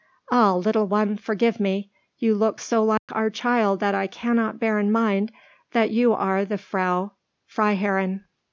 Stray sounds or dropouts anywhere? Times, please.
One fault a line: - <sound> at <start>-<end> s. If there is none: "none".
- dropout at 3.0-3.1 s